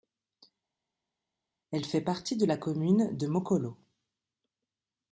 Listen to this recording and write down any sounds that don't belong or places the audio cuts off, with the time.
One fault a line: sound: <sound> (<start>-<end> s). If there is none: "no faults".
no faults